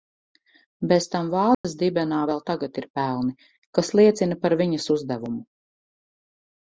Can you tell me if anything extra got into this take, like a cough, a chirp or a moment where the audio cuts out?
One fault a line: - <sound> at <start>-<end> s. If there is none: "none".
- dropout at 1.5-1.6 s